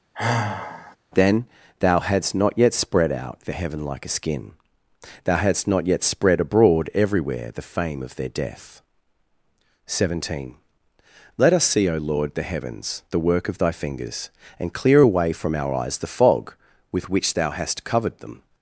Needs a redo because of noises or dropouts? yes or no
yes